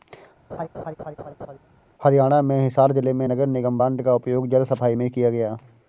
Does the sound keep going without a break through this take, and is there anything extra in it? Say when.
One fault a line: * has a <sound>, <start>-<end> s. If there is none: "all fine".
* has a laugh, 0.5-1.6 s